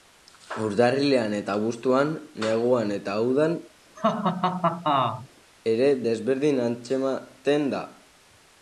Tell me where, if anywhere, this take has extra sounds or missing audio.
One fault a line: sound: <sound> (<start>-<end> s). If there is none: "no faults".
sound: laugh (4.0-5.3 s)